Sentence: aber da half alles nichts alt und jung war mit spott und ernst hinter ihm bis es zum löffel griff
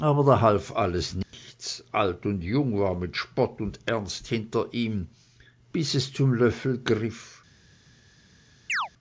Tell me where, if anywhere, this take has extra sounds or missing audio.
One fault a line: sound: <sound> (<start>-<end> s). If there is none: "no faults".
sound: dropout (1.2-1.3 s)
sound: chirp (8.7-8.9 s)